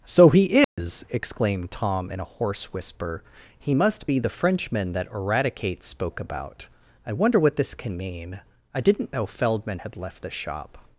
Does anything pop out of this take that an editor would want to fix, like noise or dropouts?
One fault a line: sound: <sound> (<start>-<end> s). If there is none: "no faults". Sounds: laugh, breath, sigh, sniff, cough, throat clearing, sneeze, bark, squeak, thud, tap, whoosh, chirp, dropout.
sound: dropout (0.6-0.8 s)